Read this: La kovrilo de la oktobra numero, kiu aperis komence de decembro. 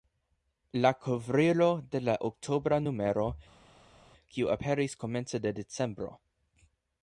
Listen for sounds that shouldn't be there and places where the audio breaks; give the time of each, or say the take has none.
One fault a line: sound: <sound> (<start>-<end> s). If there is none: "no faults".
no faults